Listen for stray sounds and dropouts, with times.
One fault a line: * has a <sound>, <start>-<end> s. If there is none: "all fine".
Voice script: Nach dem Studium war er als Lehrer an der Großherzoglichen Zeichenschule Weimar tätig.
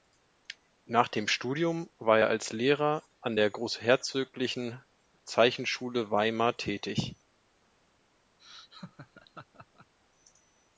* has a laugh, 8.4-9.9 s